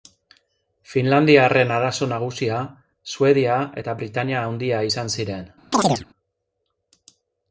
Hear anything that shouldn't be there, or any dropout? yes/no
yes